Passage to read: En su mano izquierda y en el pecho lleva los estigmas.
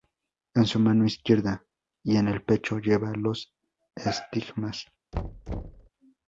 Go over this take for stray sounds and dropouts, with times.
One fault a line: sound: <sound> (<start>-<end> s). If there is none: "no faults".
sound: thud (5.1-5.9 s)